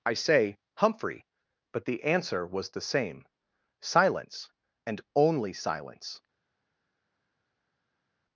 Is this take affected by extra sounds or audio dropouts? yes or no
no